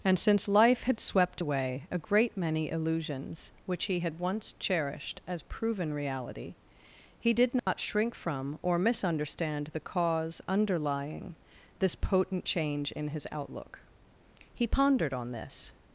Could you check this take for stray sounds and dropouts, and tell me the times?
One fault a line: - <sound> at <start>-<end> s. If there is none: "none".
- dropout at 7.6-7.7 s